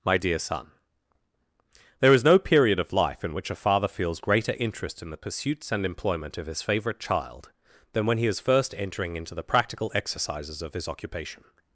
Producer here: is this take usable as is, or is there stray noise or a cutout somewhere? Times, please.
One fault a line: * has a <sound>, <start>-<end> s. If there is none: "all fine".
all fine